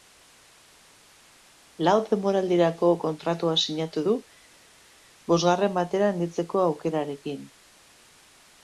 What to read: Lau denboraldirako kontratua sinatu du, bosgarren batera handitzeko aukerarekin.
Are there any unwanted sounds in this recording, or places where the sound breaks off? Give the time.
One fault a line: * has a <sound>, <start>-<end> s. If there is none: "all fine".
all fine